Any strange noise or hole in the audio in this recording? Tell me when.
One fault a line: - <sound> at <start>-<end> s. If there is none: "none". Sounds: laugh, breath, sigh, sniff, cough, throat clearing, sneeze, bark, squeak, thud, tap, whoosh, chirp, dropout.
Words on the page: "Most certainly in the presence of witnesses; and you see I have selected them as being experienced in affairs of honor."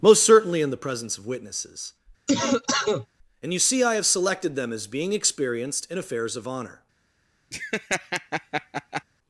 - cough at 2.3-3.1 s
- laugh at 7.5-9.0 s